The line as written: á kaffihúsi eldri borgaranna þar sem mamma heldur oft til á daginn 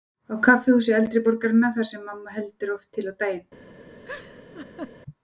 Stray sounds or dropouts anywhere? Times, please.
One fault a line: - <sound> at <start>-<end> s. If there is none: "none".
- laugh at 4.0-5.0 s